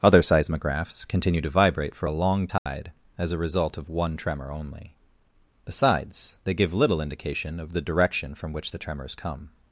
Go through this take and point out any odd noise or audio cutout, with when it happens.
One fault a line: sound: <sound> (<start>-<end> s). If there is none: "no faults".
sound: dropout (2.6-2.7 s)